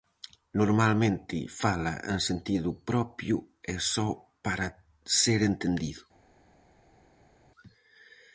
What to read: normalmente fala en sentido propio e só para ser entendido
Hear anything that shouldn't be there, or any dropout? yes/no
no